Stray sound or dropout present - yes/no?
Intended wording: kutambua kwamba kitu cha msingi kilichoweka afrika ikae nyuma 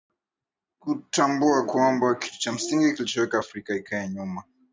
no